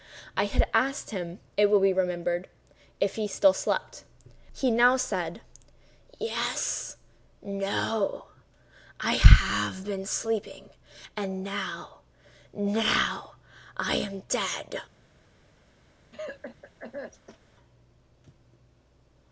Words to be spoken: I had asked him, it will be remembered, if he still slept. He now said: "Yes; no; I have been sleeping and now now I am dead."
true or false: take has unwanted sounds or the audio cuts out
true